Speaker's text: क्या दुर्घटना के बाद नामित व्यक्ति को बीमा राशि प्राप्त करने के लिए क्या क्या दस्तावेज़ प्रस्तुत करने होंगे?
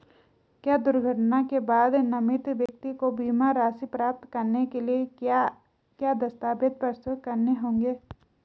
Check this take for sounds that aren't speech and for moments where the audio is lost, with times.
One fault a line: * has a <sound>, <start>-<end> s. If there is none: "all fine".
* has a dropout, 2.7-2.7 s